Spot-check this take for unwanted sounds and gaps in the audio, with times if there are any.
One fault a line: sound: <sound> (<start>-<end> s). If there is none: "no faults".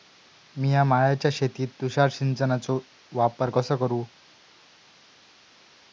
no faults